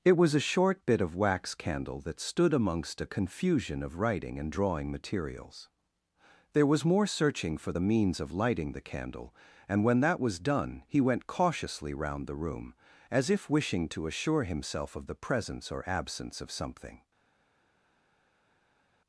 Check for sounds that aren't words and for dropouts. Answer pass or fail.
pass